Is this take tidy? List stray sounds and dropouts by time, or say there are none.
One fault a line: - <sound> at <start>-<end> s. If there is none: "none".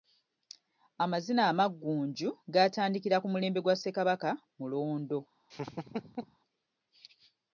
- laugh at 5.5-6.4 s